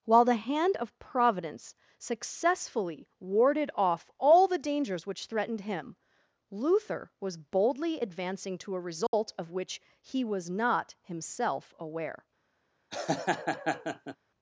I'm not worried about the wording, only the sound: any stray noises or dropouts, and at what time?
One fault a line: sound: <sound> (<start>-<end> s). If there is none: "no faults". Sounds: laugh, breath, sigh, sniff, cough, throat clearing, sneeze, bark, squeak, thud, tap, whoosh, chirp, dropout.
sound: dropout (9.1-9.1 s)
sound: laugh (12.9-14.2 s)